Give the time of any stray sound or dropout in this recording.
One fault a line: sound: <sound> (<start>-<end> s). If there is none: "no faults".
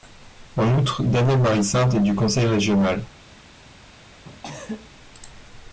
sound: cough (4.2-4.9 s)